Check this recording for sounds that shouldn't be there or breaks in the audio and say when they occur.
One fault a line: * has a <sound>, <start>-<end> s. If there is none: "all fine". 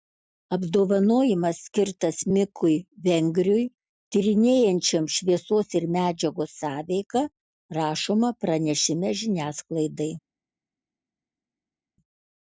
all fine